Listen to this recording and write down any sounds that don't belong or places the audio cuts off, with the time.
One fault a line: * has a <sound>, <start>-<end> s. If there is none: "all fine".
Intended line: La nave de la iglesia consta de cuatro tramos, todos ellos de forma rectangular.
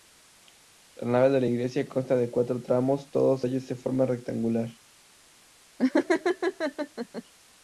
* has a laugh, 5.8-7.2 s